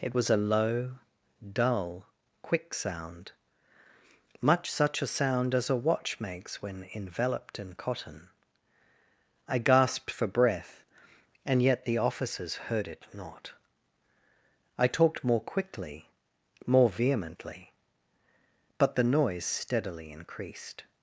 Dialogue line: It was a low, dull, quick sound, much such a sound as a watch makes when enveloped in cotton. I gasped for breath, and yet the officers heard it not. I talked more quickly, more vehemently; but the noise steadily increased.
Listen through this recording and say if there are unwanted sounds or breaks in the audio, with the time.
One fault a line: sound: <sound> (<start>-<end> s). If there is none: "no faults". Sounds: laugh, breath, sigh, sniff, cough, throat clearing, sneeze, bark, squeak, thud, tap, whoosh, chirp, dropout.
no faults